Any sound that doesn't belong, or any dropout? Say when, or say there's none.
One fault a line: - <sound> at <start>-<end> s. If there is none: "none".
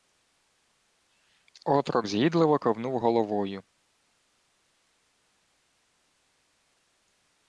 none